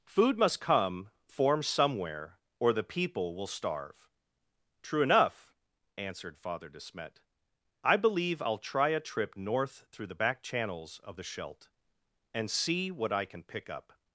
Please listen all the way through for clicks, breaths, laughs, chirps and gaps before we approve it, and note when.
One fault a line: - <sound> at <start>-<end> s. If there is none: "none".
none